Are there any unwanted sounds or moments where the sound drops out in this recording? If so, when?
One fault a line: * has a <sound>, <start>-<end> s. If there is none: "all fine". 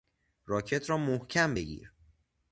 all fine